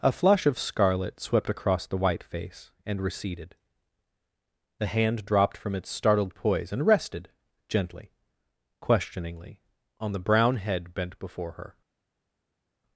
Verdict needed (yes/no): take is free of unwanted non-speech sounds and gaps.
yes